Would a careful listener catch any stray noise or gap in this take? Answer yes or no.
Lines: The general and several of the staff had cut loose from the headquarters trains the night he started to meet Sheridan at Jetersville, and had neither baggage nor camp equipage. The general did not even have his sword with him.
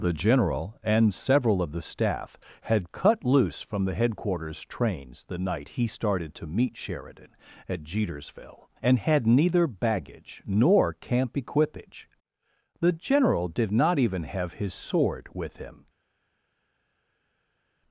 no